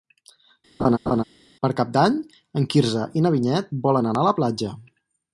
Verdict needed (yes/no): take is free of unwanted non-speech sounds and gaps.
no